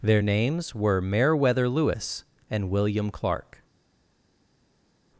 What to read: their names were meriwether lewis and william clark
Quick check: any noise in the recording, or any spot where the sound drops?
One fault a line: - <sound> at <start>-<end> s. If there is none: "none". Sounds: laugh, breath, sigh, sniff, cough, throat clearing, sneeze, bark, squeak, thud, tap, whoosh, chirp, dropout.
none